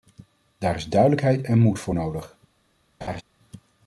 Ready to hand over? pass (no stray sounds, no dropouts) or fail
fail